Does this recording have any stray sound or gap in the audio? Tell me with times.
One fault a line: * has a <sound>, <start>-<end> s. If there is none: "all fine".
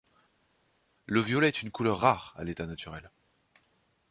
all fine